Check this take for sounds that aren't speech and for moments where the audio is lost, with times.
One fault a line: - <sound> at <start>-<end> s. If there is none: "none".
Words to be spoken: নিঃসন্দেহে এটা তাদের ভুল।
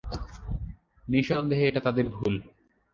none